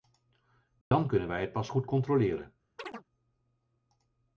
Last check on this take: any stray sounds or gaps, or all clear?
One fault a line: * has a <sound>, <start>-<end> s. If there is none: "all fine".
* has a dropout, 0.8-0.9 s
* has a chirp, 2.8-3.0 s